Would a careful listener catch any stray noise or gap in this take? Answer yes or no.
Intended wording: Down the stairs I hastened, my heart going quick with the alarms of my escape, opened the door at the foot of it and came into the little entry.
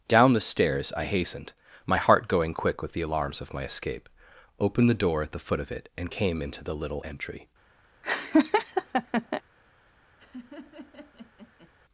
yes